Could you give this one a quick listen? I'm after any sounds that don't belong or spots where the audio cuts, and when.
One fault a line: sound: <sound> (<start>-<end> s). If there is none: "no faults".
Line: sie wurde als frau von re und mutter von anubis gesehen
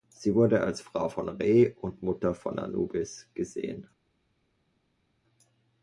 no faults